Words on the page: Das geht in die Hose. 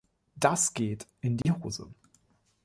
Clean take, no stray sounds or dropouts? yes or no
no